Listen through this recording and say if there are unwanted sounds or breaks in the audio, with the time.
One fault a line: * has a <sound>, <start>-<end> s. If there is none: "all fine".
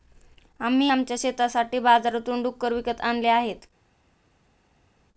all fine